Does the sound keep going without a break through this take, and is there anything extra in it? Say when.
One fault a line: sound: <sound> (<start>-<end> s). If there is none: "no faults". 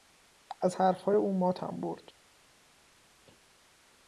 no faults